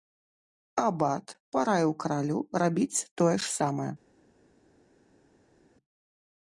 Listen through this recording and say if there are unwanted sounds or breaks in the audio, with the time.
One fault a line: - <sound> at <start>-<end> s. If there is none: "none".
none